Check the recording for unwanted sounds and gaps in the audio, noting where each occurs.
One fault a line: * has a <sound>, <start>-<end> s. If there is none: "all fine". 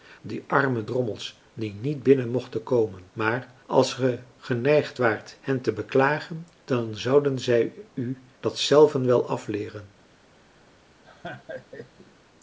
* has a laugh, 11.0-12.1 s